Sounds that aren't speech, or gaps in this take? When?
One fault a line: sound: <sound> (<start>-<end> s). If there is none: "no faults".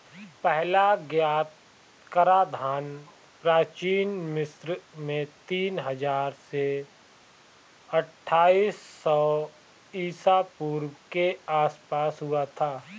no faults